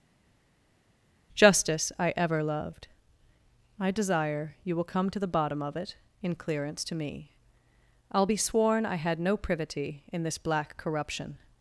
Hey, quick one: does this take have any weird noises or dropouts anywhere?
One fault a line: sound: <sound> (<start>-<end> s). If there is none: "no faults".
no faults